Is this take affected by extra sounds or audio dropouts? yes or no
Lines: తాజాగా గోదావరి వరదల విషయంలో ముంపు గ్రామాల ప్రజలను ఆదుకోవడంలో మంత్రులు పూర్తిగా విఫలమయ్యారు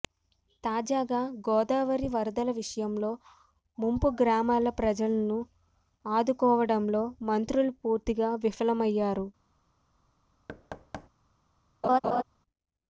yes